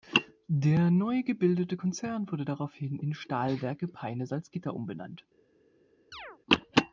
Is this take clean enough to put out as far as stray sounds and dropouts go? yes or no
no